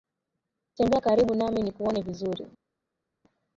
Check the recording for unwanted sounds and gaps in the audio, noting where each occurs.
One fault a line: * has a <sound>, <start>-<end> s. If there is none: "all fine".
all fine